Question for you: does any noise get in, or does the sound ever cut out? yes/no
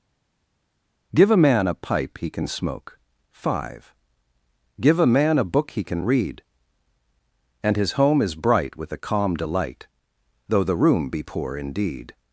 no